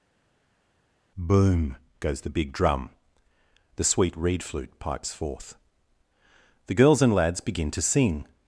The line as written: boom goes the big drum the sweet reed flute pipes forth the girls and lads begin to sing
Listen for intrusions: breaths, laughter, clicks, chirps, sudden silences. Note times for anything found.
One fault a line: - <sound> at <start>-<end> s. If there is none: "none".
none